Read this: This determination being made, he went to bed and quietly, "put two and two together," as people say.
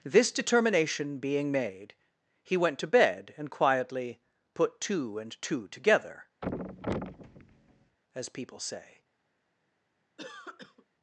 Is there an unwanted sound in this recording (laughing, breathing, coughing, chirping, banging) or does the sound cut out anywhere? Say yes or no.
yes